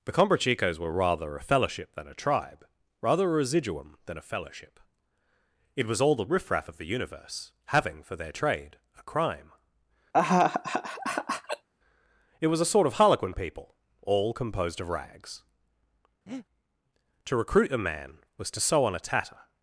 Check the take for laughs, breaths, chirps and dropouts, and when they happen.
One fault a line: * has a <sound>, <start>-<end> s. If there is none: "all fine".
* has a laugh, 10.1-11.7 s
* has a breath, 16.3-16.5 s